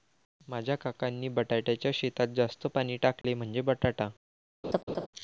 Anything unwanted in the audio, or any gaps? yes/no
yes